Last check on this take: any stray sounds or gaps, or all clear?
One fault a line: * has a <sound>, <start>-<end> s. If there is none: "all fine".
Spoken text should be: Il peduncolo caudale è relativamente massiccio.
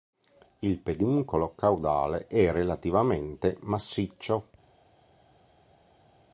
all fine